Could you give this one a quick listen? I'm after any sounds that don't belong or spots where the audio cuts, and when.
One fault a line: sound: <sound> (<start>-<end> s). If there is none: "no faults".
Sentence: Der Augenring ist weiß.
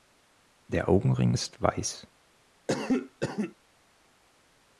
sound: cough (2.7-3.6 s)